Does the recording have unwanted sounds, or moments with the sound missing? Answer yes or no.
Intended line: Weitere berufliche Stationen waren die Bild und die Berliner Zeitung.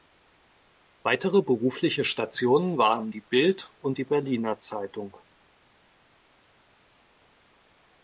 no